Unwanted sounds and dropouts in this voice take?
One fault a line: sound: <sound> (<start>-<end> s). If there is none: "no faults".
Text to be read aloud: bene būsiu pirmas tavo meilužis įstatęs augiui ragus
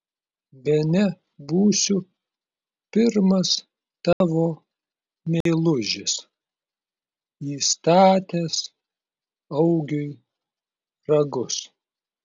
sound: dropout (4.1-4.2 s)
sound: dropout (5.4-5.5 s)